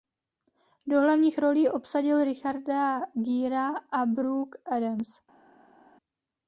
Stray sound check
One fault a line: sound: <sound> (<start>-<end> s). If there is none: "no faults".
no faults